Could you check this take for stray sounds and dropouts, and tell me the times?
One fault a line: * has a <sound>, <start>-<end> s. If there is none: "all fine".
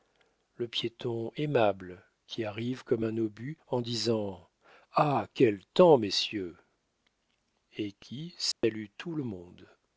* has a dropout, 8.5-8.6 s